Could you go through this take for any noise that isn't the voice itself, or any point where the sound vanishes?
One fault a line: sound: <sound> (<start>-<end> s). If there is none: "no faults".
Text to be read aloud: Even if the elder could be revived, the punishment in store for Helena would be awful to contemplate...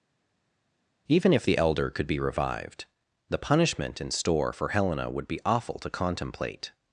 no faults